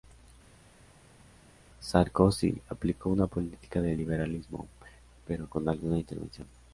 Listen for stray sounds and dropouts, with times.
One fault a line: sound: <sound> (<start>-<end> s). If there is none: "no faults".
no faults